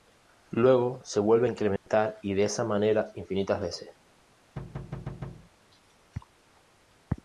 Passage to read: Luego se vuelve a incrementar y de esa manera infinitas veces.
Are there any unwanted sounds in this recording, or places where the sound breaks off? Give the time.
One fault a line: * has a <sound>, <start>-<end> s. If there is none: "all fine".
* has a dropout, 1.8-1.9 s
* has a thud, 4.6-5.5 s